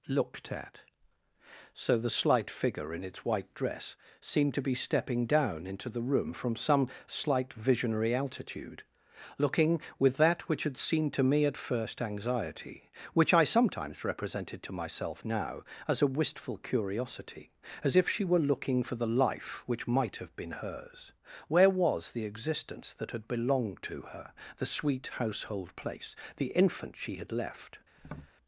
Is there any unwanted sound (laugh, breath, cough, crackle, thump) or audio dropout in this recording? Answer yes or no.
yes